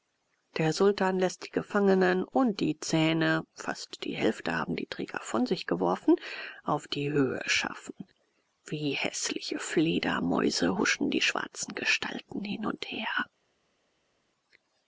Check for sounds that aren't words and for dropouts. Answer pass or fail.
pass